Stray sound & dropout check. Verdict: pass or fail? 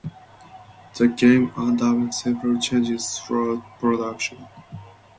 pass